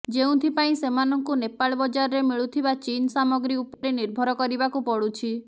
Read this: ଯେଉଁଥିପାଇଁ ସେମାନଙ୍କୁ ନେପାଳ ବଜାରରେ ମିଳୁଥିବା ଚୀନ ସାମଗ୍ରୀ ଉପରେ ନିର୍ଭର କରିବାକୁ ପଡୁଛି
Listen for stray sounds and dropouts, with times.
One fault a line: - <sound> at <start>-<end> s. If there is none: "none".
- dropout at 3.7-3.8 s